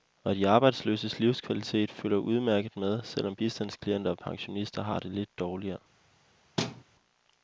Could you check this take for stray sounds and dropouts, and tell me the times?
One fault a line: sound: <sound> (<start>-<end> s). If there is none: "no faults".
sound: thud (6.6-6.8 s)